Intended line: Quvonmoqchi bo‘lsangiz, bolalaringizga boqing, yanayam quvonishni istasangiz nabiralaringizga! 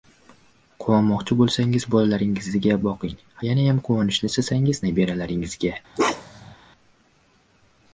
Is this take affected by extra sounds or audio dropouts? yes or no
yes